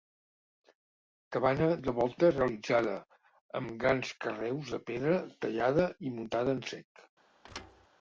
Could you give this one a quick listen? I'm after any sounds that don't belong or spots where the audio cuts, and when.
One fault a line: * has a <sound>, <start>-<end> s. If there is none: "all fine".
* has a thud, 7.4-7.9 s